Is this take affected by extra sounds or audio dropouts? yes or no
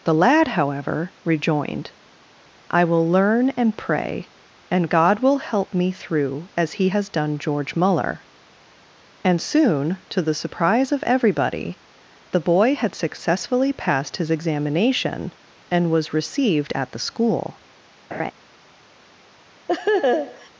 yes